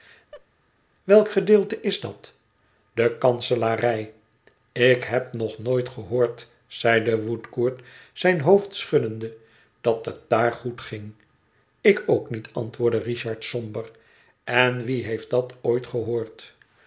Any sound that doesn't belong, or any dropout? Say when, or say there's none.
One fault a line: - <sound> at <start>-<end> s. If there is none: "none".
- laugh at 0.3-0.5 s